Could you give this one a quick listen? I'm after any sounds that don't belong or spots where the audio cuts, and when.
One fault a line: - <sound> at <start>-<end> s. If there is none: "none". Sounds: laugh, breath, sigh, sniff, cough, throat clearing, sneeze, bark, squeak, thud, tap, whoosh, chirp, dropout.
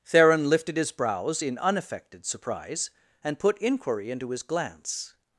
none